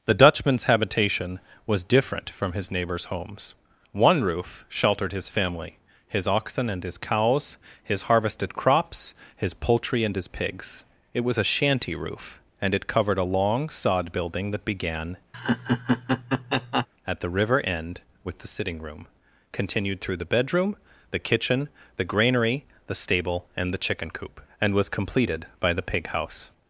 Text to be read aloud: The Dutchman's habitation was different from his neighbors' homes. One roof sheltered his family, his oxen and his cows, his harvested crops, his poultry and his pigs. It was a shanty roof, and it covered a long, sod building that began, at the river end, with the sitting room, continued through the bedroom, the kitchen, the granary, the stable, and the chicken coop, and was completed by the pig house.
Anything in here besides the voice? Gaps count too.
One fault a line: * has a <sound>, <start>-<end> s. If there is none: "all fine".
* has a laugh, 15.3-16.9 s